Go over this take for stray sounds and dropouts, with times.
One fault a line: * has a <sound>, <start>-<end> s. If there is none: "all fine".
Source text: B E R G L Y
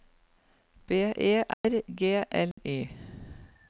* has a dropout, 1.5-1.6 s
* has a dropout, 2.5-2.6 s